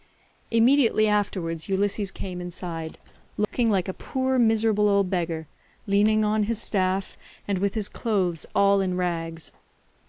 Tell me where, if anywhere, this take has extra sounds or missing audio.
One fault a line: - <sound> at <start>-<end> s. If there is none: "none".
- dropout at 3.4-3.5 s